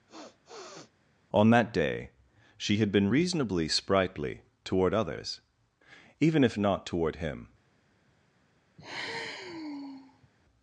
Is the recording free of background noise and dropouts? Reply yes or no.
no